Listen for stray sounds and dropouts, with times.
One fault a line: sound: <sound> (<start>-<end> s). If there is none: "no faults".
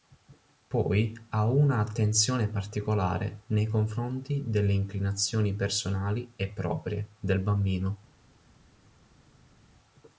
no faults